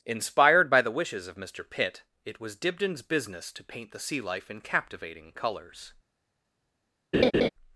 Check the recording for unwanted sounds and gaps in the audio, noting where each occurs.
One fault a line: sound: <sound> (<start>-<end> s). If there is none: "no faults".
sound: laugh (7.1-7.5 s)